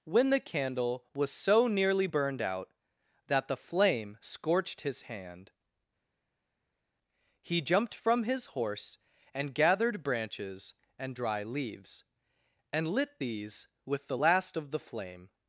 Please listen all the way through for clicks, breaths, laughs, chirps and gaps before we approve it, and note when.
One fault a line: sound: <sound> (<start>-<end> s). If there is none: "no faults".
no faults